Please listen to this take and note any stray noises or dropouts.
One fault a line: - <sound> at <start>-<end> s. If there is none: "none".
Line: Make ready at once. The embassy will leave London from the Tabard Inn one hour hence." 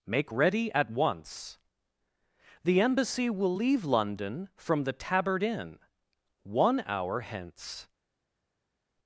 none